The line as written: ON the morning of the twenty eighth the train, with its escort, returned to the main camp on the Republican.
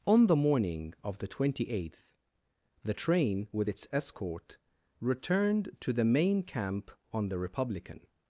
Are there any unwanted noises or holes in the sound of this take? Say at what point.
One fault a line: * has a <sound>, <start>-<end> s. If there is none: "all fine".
all fine